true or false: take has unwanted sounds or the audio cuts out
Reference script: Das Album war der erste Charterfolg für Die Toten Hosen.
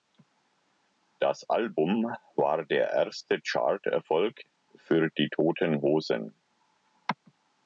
false